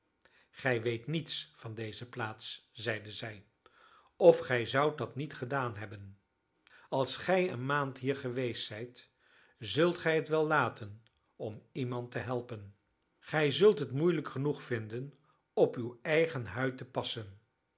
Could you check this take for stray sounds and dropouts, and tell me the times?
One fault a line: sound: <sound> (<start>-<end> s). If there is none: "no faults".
no faults